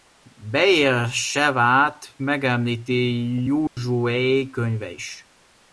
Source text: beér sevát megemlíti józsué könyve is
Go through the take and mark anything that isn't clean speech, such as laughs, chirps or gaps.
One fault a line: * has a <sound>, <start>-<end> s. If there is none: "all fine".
* has a dropout, 3.7-3.8 s